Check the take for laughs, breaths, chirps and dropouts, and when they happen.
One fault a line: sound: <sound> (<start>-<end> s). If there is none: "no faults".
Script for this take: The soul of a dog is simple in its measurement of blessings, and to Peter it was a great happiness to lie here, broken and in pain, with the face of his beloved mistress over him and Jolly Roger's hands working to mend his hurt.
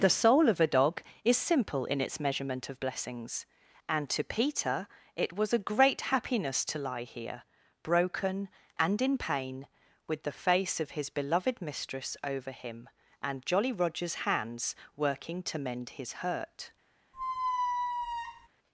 sound: squeak (17.1-18.5 s)